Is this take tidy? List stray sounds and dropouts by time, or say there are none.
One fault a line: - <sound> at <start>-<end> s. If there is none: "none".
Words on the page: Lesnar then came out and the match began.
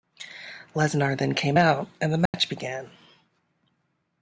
- dropout at 2.3-2.3 s